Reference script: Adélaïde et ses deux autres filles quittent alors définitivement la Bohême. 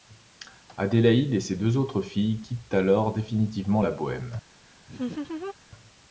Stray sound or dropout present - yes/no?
yes